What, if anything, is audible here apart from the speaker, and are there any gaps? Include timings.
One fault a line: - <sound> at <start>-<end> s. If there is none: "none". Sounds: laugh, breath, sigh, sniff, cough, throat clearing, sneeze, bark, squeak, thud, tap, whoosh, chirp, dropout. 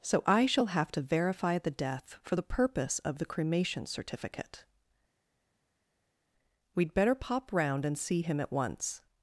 none